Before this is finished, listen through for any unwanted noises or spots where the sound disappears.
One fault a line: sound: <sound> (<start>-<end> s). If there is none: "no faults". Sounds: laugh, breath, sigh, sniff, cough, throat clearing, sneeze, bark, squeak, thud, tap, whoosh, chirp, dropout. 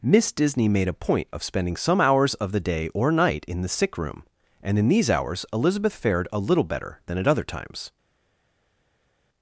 no faults